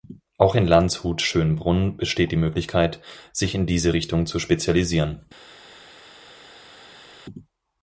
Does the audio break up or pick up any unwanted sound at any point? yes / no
no